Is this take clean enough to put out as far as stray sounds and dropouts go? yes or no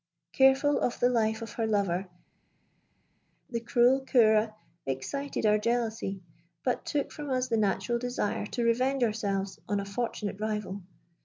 yes